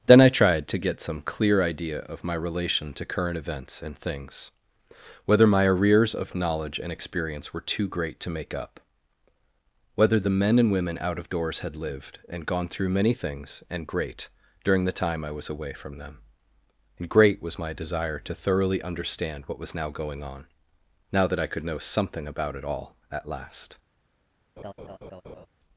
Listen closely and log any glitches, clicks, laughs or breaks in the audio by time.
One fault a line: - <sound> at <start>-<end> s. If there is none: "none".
- laugh at 24.6-25.5 s